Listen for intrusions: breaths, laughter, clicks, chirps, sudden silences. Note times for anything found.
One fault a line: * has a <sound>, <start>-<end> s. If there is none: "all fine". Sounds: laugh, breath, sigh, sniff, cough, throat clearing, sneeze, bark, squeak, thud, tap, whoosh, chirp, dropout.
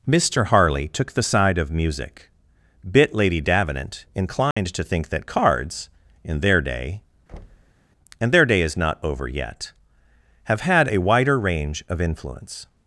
* has a dropout, 4.5-4.6 s
* has a thud, 7.3-7.8 s